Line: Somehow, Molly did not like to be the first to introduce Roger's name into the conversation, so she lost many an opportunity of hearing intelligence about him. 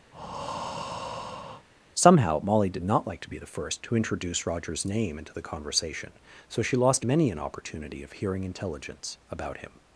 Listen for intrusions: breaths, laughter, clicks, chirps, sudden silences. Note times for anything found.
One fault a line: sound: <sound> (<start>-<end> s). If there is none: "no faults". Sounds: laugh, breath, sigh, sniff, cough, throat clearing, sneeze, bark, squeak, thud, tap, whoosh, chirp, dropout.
sound: breath (0.1-1.7 s)